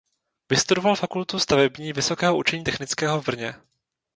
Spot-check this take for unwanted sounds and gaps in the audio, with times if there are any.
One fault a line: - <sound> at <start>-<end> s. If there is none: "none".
none